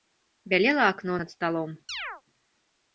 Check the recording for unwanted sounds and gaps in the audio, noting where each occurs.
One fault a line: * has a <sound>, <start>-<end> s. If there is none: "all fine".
* has a chirp, 1.9-2.2 s